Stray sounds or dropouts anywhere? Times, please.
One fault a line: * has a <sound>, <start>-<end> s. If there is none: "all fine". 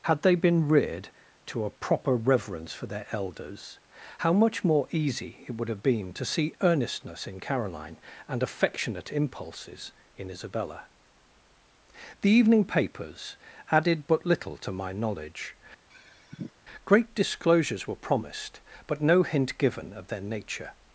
* has a sigh, 15.9-16.5 s